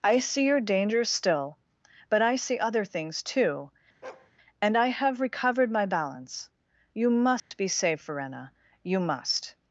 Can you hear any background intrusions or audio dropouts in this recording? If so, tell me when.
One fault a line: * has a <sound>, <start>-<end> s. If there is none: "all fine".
* has a bark, 4.0-4.3 s
* has a dropout, 7.4-7.5 s